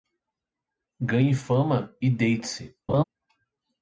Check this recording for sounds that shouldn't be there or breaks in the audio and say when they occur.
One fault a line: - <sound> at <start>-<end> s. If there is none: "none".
- laugh at 2.9-3.0 s